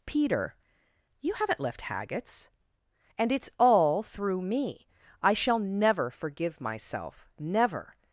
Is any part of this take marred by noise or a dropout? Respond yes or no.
no